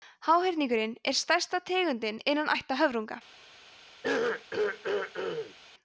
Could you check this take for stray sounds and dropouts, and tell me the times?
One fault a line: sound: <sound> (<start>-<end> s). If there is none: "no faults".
sound: throat clearing (4.0-5.6 s)